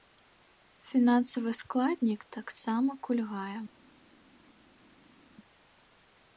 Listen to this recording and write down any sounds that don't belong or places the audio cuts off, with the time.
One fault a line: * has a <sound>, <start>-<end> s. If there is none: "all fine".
all fine